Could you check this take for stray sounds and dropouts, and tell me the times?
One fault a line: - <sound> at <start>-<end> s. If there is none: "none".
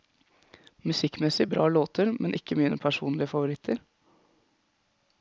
none